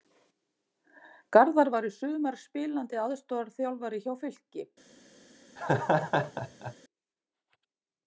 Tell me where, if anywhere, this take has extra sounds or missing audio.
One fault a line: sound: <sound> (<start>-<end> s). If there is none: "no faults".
sound: laugh (5.6-6.8 s)